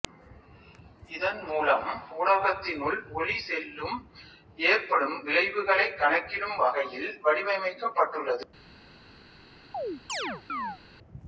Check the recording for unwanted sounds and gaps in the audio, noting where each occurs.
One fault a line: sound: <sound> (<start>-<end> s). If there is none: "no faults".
sound: chirp (9.7-10.8 s)